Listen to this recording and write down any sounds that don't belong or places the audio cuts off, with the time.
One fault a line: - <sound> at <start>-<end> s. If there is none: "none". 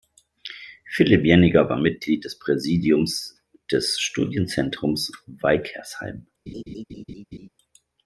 - laugh at 6.5-7.5 s